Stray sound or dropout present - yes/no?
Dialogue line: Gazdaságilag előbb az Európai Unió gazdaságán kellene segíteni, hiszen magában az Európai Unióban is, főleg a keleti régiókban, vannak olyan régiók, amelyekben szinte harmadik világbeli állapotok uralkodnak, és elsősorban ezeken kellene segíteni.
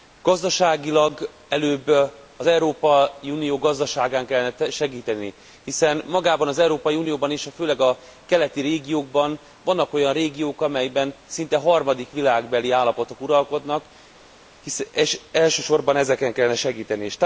no